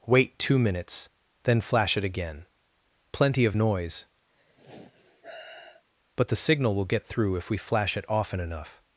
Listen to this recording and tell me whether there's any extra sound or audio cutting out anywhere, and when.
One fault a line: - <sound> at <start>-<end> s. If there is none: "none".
- sigh at 4.3-5.8 s